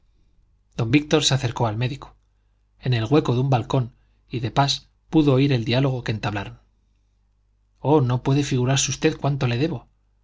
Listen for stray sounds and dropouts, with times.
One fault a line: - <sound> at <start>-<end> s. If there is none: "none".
none